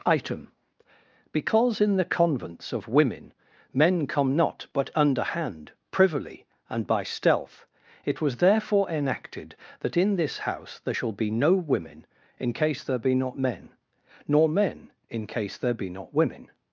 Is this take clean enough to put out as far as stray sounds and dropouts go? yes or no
yes